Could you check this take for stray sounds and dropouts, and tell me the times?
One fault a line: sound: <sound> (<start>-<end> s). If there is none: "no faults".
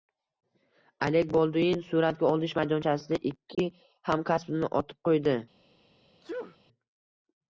sound: dropout (3.5-3.6 s)
sound: sneeze (6.2-6.6 s)